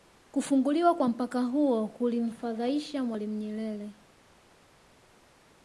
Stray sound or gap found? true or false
false